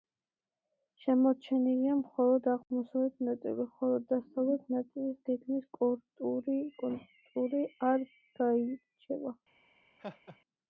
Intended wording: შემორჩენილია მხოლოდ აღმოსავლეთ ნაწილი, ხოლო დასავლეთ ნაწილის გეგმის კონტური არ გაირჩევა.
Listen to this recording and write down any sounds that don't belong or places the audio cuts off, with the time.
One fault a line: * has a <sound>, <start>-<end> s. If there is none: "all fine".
* has a laugh, 10.0-10.4 s